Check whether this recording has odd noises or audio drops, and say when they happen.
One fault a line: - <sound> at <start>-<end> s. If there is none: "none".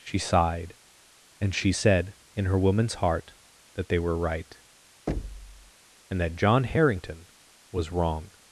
- thud at 5.1-5.7 s